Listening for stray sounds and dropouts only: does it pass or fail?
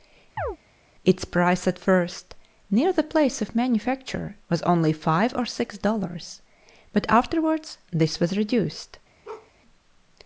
fail